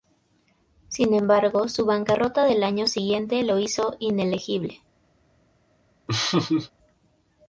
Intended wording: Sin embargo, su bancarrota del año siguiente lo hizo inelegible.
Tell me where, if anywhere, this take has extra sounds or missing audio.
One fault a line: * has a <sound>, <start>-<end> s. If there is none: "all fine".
* has a laugh, 6.1-6.7 s